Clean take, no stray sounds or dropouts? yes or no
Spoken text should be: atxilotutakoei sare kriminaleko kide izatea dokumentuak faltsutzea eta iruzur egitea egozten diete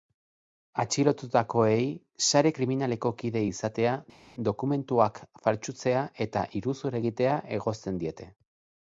yes